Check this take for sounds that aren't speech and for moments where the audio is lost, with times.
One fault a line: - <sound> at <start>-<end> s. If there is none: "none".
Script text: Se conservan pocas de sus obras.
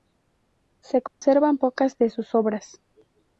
- dropout at 1.1-1.2 s